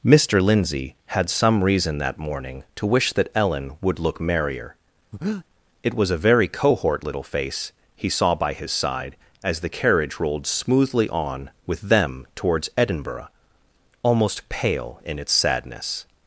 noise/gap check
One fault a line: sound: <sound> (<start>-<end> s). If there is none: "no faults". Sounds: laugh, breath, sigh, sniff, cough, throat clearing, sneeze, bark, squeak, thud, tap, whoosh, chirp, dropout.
sound: breath (5.1-5.5 s)